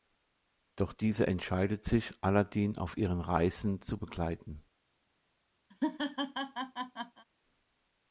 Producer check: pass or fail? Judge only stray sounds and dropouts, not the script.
fail